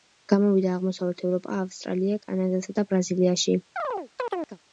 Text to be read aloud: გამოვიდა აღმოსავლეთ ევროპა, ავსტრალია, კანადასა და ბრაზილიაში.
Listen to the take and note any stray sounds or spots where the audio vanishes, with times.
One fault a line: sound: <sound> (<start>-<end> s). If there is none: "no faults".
sound: chirp (3.8-4.6 s)